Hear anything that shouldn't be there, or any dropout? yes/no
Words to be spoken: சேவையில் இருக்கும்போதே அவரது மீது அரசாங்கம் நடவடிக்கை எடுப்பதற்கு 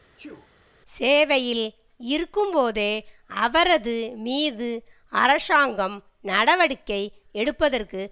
yes